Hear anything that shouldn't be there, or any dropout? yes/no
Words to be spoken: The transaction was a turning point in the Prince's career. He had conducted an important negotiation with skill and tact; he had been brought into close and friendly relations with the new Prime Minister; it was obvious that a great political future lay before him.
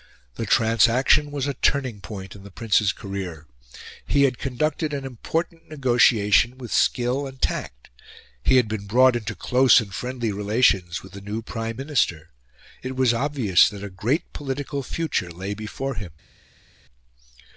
no